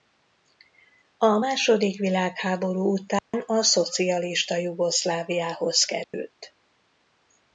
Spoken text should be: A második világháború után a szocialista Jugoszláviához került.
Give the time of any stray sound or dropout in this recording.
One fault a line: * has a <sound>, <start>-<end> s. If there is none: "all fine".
* has a dropout, 3.2-3.3 s
* has a dropout, 6.0-6.1 s